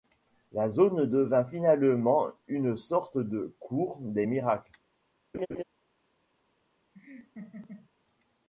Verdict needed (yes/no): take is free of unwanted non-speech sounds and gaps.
no